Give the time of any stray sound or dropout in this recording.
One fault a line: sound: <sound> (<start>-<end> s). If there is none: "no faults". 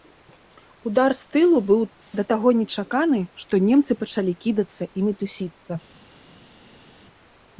no faults